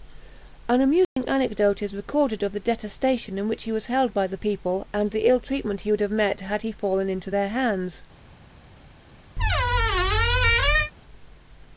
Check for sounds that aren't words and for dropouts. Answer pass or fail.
fail